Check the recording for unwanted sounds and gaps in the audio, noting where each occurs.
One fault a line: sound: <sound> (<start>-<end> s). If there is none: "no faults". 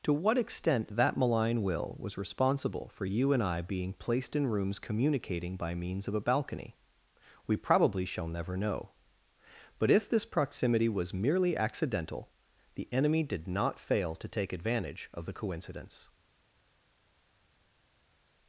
no faults